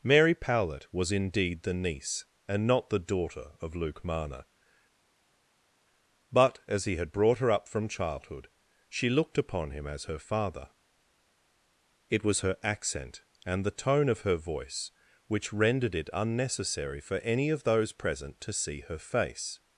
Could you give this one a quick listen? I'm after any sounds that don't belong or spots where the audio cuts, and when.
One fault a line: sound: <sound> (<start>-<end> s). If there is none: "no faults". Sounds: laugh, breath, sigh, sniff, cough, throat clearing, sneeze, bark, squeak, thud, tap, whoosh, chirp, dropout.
no faults